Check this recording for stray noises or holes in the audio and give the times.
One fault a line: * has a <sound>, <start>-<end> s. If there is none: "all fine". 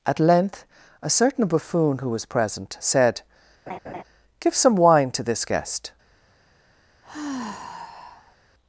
* has a laugh, 3.7-4.0 s
* has a sigh, 7.0-8.4 s